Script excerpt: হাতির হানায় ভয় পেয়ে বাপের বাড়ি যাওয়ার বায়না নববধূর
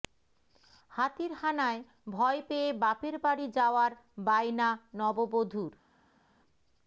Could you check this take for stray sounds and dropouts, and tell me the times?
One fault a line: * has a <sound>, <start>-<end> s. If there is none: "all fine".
all fine